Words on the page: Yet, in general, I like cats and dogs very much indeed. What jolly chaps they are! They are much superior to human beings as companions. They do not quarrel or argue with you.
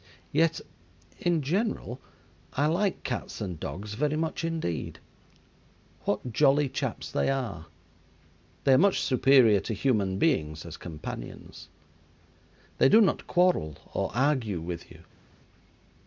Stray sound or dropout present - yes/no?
no